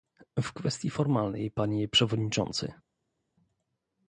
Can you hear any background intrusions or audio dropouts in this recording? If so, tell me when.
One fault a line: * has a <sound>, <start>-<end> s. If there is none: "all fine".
all fine